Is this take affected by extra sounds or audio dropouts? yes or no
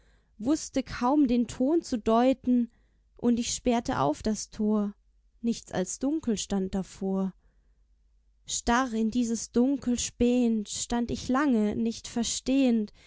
no